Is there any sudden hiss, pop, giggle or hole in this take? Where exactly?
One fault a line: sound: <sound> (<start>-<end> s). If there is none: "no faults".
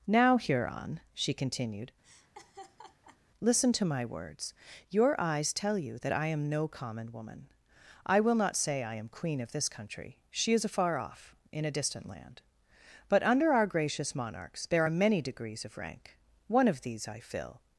sound: laugh (2.0-3.2 s)